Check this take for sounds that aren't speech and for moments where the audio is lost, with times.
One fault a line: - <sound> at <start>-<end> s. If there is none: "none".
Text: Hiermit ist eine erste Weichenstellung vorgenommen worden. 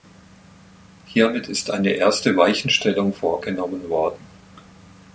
none